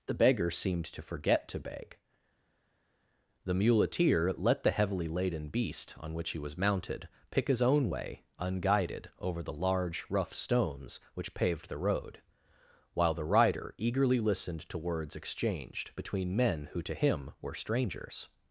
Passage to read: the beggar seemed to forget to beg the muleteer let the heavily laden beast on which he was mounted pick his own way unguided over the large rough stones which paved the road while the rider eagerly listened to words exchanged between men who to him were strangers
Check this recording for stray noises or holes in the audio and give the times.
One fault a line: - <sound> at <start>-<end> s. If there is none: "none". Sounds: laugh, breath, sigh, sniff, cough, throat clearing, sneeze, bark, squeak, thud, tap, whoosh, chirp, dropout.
none